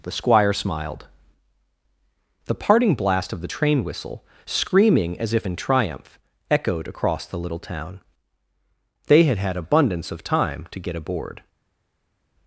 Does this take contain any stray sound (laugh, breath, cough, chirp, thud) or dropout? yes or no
no